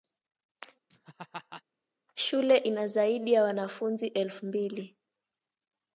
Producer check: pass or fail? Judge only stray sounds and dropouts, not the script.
fail